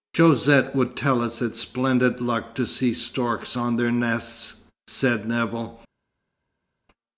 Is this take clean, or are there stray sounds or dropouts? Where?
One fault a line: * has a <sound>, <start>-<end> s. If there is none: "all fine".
all fine